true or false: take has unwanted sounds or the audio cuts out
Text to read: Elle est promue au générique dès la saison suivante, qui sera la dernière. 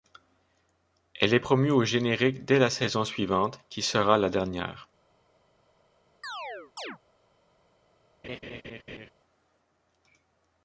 true